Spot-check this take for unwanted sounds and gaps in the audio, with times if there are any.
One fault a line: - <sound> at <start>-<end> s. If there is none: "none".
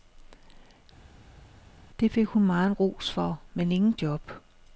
none